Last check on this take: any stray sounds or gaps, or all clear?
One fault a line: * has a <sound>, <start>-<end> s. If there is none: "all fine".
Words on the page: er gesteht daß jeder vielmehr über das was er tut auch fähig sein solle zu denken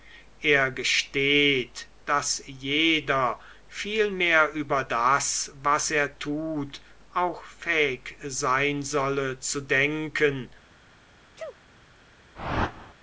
* has a sneeze, 11.4-11.6 s
* has a whoosh, 12.3-12.9 s